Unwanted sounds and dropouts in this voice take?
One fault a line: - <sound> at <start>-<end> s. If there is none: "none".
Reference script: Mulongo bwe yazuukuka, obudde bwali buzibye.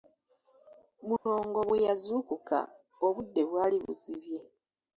- dropout at 1.2-1.3 s